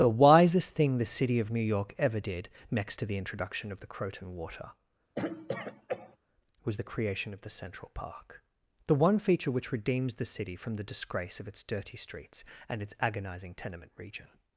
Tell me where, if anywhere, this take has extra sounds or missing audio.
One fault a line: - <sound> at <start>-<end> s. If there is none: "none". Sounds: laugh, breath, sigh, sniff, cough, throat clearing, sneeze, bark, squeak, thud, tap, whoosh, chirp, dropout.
- throat clearing at 5.1-6.2 s